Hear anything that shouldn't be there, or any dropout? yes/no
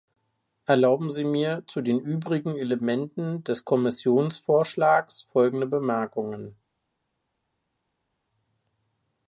no